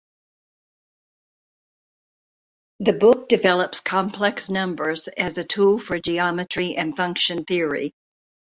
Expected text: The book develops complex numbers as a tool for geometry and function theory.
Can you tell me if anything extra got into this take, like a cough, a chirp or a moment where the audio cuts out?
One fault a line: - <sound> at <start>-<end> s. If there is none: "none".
none